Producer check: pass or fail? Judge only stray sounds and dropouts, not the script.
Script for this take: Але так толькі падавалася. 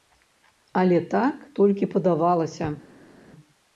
pass